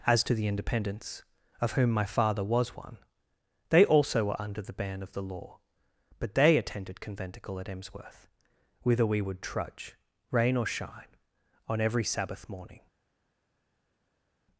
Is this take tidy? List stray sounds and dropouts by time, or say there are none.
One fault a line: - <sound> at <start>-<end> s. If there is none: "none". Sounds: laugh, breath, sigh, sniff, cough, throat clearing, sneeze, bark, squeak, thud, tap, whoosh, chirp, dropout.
none